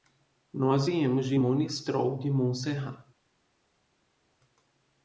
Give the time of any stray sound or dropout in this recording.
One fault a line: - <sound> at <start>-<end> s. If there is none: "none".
none